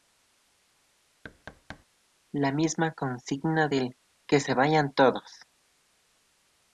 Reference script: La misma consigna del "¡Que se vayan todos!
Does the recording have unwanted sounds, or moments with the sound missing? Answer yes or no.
yes